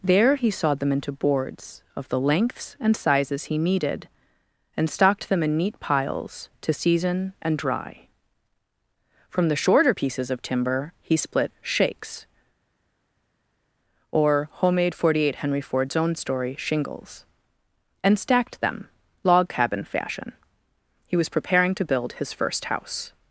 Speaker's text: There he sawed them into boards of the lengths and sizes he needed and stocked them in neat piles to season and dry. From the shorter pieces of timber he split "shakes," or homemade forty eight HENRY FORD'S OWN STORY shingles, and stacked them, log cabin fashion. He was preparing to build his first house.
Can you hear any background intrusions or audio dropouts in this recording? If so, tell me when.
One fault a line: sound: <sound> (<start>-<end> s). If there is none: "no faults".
no faults